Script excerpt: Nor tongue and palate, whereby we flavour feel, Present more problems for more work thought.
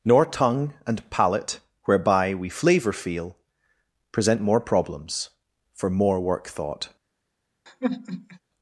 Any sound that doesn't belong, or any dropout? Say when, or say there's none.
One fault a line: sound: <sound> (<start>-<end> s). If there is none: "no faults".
sound: sigh (7.7-8.4 s)